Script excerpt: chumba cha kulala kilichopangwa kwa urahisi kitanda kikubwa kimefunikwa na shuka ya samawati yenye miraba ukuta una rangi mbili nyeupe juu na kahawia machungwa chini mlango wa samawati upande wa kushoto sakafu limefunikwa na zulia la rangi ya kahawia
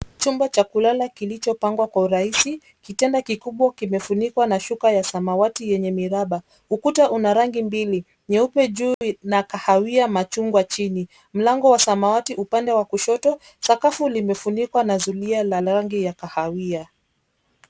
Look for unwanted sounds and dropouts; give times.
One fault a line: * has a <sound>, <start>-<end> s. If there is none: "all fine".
* has a dropout, 8.9-9.0 s